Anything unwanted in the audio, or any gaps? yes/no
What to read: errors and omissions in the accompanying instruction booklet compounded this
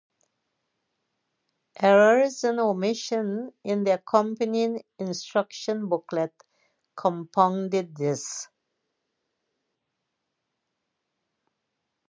no